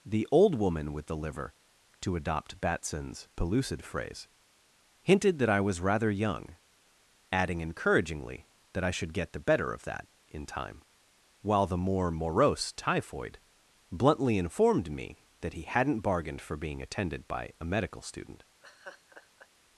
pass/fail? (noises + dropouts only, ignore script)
fail